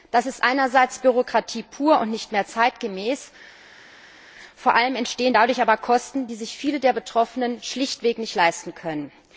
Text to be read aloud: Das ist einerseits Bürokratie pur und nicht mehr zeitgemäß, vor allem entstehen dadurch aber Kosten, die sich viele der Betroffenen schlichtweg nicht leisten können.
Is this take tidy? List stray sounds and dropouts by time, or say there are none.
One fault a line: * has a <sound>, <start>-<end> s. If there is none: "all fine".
all fine